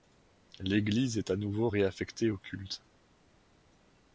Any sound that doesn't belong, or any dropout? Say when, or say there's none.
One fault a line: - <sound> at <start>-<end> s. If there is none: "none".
none